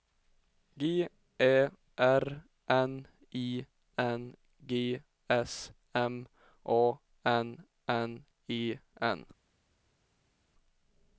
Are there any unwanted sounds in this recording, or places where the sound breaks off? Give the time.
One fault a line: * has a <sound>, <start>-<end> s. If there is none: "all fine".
all fine